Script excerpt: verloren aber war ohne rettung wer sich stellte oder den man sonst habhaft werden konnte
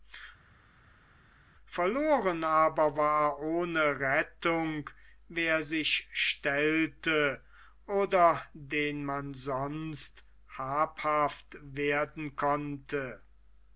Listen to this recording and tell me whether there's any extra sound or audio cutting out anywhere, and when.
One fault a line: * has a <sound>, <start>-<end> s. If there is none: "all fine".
all fine